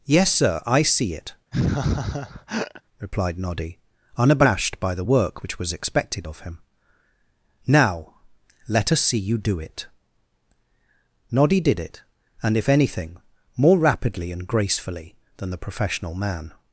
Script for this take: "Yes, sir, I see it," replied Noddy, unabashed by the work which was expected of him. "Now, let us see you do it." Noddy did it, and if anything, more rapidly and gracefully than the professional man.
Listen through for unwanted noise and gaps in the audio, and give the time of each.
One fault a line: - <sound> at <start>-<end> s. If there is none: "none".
- laugh at 1.5-2.8 s